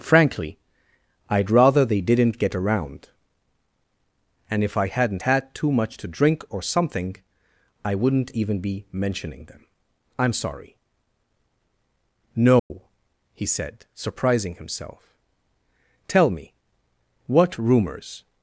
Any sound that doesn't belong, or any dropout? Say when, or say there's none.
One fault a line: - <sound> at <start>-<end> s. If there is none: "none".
- dropout at 12.6-12.7 s